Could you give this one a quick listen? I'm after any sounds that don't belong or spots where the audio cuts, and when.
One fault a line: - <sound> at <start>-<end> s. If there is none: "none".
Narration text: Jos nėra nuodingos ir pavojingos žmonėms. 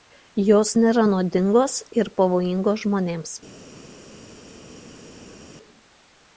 none